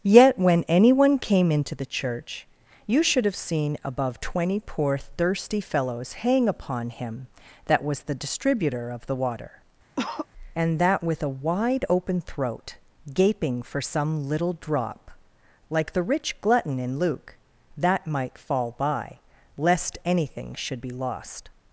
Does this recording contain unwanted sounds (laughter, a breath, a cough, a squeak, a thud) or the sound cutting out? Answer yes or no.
yes